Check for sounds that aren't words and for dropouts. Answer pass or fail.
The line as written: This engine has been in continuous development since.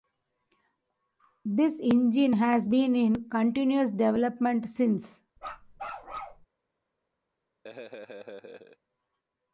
fail